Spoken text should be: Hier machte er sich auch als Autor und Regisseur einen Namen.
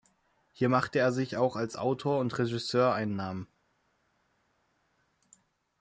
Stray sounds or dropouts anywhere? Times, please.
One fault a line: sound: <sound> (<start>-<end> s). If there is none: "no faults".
no faults